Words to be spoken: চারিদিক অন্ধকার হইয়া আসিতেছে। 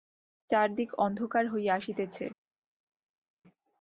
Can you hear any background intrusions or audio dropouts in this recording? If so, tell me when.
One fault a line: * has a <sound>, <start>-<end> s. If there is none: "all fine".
all fine